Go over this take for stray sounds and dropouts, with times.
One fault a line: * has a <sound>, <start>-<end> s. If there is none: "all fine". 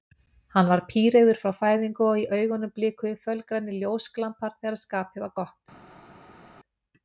all fine